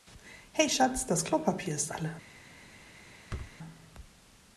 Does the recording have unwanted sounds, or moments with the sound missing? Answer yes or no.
yes